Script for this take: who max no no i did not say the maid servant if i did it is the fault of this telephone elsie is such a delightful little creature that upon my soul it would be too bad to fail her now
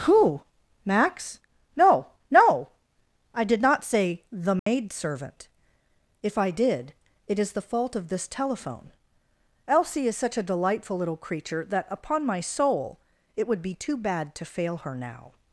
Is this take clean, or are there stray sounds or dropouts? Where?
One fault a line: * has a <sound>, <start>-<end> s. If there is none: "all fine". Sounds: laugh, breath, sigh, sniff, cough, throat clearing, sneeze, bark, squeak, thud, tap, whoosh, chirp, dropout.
* has a dropout, 4.6-4.7 s